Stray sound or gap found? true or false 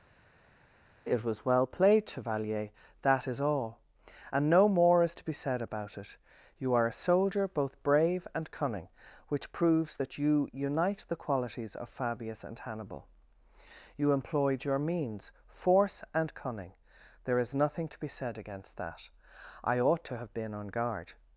false